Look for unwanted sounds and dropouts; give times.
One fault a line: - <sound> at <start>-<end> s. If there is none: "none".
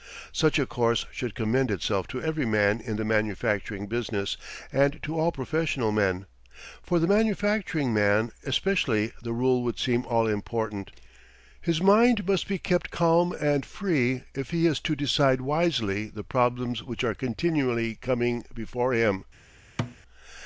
- thud at 19.8-20.0 s